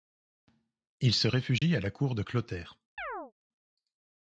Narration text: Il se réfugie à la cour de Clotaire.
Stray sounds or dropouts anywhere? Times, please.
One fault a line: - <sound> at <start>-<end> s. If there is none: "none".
- dropout at 1.6-1.6 s
- chirp at 3.0-3.3 s